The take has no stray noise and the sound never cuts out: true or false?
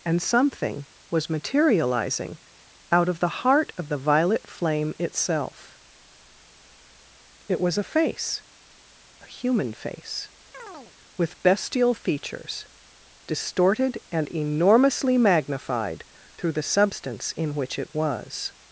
false